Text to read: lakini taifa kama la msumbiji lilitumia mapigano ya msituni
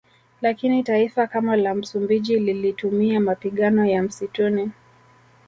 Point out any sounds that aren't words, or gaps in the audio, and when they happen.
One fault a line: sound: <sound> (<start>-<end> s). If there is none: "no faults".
no faults